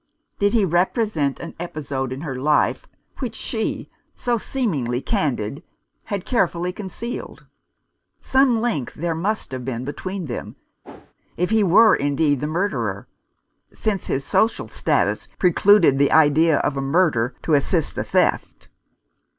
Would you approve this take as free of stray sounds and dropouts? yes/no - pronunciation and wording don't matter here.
no